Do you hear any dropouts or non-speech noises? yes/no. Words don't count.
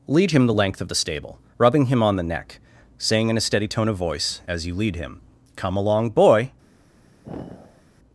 yes